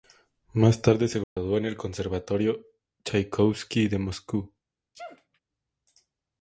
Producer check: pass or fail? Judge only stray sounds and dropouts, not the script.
fail